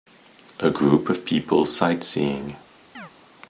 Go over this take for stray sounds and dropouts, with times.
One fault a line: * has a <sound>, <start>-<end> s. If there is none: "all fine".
* has a chirp, 2.9-3.1 s